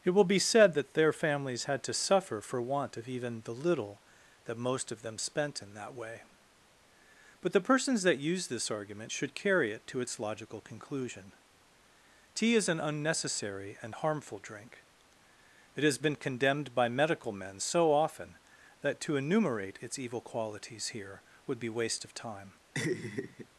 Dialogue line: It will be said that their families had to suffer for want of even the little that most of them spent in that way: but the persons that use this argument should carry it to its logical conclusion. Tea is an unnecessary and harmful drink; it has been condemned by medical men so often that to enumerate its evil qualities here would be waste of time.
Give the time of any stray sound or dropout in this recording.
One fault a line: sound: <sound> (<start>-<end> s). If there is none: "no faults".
sound: laugh (22.7-23.5 s)